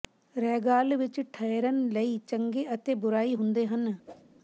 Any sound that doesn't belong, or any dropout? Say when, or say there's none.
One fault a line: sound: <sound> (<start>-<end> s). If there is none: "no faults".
sound: whoosh (4.1-4.2 s)